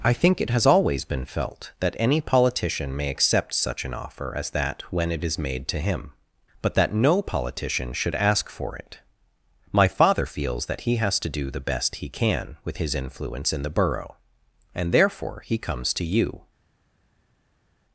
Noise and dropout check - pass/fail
pass